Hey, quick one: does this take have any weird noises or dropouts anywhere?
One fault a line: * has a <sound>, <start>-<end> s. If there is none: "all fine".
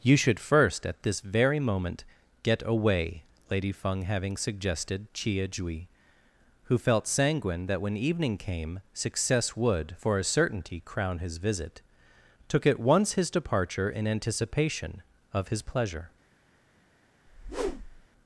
* has a whoosh, 17.3-18.1 s